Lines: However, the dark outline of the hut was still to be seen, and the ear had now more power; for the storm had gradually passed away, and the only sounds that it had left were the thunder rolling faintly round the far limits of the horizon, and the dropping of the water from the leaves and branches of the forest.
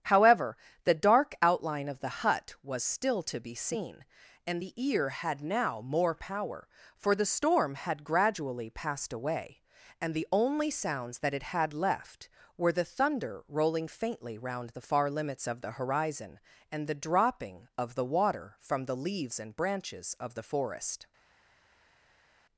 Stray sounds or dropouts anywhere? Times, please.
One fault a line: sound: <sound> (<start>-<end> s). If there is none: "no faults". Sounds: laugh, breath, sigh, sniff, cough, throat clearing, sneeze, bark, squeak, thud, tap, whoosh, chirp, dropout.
no faults